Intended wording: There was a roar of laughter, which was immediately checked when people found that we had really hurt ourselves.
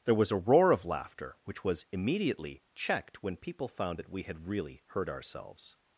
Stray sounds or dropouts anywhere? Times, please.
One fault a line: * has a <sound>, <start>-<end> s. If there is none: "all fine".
all fine